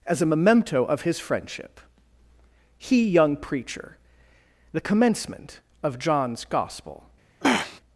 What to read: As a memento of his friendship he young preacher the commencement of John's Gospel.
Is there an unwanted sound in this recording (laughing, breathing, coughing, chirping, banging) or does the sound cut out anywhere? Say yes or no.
yes